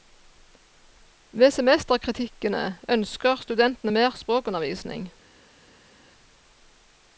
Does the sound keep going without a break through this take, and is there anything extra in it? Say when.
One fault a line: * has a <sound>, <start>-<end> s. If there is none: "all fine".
all fine